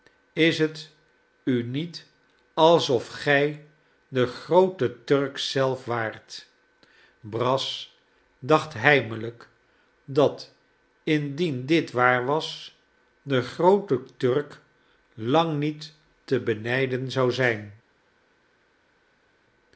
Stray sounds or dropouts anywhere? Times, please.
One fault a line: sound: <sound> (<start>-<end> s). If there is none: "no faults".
no faults